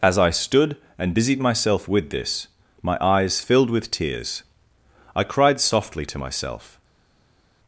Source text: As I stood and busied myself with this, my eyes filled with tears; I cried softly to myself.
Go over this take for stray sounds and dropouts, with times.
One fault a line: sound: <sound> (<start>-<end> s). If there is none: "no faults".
no faults